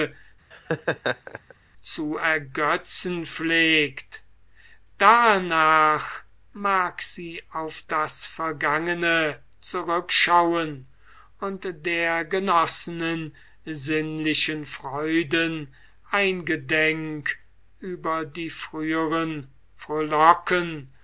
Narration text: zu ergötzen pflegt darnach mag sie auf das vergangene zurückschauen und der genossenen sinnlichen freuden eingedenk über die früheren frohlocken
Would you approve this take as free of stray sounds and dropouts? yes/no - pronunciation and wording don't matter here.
no